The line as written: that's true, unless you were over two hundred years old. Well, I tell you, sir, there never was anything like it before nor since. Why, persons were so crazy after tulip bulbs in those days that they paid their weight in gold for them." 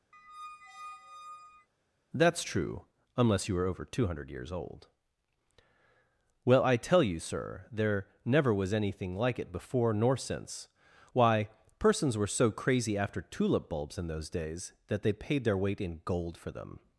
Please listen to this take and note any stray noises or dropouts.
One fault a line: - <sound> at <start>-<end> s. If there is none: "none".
- squeak at 0.1-1.7 s